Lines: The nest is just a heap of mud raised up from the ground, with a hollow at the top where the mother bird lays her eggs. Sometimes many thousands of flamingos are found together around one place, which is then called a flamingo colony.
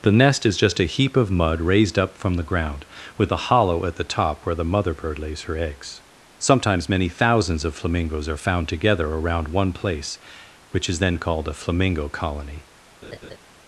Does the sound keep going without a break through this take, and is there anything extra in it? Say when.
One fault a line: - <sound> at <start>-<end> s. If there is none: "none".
- laugh at 13.0-13.4 s